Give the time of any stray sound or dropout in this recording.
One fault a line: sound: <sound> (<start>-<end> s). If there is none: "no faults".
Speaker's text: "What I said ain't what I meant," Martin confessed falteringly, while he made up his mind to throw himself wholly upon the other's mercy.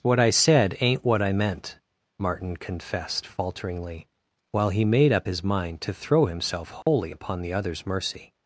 sound: dropout (6.8-6.9 s)